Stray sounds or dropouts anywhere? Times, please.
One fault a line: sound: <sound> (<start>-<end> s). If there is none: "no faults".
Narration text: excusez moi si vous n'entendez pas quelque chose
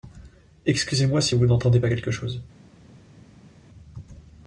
no faults